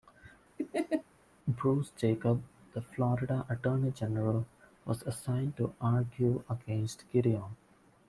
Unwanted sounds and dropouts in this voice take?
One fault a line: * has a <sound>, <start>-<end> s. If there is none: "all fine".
* has a laugh, 0.6-1.0 s